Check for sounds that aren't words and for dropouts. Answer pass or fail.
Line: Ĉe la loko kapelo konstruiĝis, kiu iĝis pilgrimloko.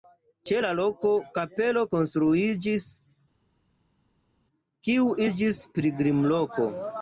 pass